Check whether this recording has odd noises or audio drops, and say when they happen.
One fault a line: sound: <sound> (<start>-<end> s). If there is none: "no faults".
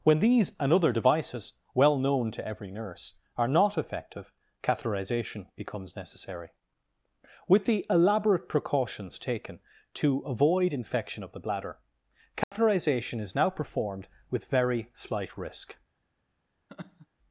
sound: dropout (12.4-12.5 s)
sound: laugh (16.7-17.1 s)